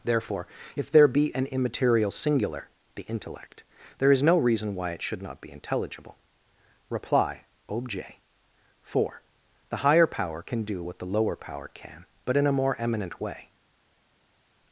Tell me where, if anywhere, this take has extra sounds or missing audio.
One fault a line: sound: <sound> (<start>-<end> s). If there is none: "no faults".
no faults